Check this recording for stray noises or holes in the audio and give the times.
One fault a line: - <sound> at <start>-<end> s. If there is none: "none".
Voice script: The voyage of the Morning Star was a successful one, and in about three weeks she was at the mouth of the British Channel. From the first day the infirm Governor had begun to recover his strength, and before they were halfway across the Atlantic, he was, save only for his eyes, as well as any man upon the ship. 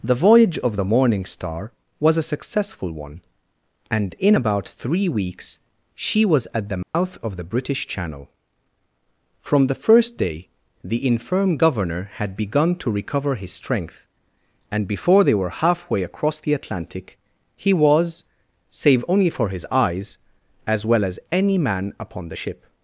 - dropout at 6.8-6.9 s